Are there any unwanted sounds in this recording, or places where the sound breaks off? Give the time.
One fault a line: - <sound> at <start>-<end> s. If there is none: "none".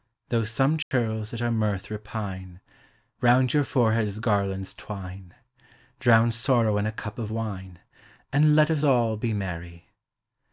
- dropout at 0.8-0.9 s